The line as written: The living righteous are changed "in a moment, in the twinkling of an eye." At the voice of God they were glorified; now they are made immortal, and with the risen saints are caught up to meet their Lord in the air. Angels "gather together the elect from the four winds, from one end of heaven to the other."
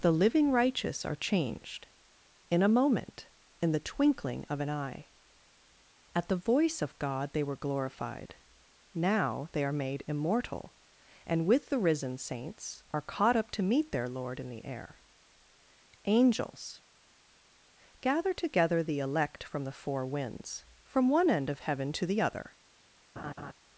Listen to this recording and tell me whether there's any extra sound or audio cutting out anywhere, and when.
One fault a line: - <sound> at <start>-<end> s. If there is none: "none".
- laugh at 23.2-23.5 s